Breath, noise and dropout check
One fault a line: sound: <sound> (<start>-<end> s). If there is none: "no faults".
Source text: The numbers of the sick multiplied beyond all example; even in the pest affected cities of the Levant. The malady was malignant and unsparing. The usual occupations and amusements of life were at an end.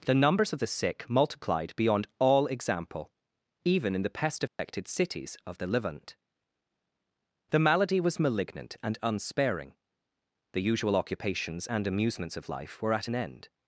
sound: dropout (4.5-4.6 s)